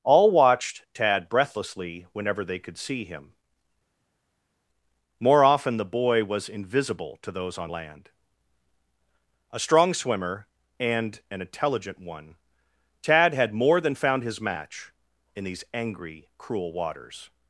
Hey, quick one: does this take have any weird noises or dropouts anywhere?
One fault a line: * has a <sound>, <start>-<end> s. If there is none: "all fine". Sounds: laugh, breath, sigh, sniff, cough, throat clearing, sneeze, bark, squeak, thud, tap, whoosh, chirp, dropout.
all fine